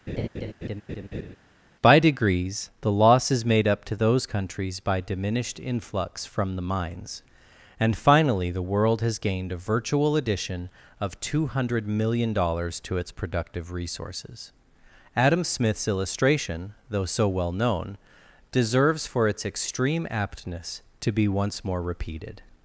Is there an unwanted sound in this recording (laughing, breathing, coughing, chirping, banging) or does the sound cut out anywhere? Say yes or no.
yes